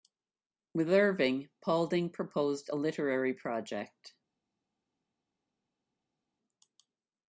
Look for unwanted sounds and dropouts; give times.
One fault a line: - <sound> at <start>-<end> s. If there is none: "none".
none